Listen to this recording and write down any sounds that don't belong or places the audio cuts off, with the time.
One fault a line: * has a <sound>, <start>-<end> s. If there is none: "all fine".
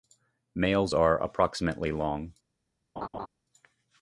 * has a laugh, 3.0-3.3 s